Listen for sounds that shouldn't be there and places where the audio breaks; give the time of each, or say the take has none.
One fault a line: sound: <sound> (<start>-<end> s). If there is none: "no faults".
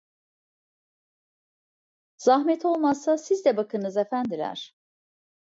no faults